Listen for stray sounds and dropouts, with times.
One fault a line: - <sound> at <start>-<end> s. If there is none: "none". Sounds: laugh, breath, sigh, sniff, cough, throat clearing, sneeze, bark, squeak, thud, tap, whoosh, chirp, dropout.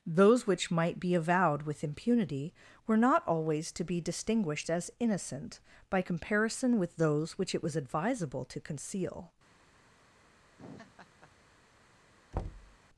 - laugh at 10.6-11.3 s
- thud at 12.3-12.8 s